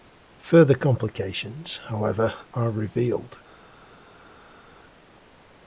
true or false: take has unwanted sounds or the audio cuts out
false